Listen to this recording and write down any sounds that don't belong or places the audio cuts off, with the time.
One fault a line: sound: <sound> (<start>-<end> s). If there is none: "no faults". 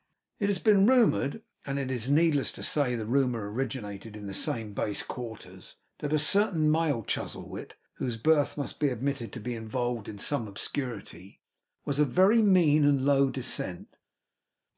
no faults